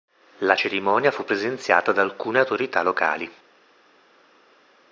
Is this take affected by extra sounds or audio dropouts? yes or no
no